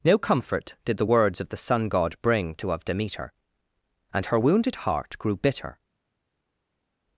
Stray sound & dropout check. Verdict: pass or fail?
pass